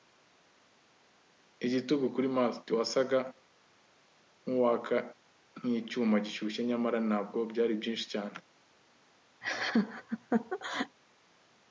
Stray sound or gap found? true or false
true